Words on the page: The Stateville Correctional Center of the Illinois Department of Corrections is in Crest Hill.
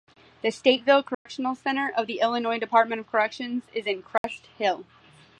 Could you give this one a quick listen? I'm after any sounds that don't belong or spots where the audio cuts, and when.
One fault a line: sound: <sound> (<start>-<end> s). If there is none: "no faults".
sound: dropout (1.1-1.3 s)
sound: dropout (4.2-4.2 s)